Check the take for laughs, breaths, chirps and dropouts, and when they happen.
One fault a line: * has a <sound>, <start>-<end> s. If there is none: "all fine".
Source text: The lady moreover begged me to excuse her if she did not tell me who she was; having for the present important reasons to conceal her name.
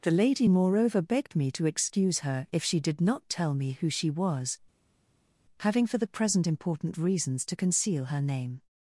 all fine